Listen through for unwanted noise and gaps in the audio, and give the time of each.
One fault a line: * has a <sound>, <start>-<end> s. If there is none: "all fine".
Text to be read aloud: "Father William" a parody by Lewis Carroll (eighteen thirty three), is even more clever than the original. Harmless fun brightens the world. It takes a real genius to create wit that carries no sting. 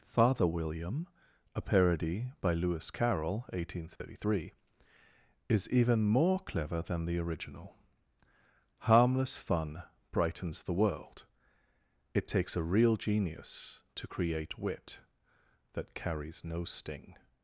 * has a dropout, 4.0-4.0 s